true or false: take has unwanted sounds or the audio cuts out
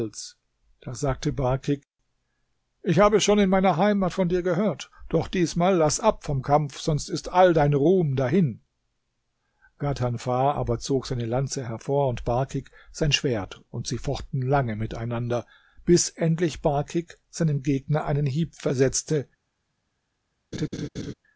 true